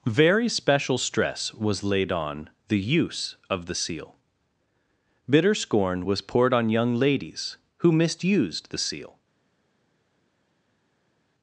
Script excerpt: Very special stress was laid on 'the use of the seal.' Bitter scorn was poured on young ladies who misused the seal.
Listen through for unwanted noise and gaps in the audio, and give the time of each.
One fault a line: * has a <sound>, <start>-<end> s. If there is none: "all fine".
all fine